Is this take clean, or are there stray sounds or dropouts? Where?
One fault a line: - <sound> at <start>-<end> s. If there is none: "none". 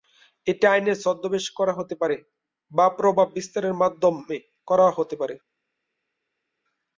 none